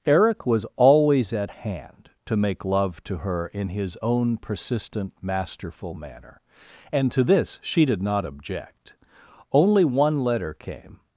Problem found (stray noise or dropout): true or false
false